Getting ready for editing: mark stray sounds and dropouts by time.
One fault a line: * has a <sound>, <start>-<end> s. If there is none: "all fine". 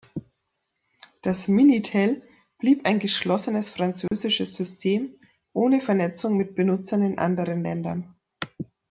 * has a dropout, 4.1-4.1 s